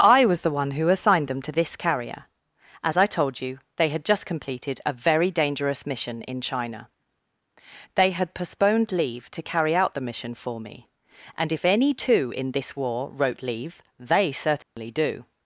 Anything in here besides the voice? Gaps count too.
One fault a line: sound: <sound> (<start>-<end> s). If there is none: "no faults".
sound: dropout (14.6-14.8 s)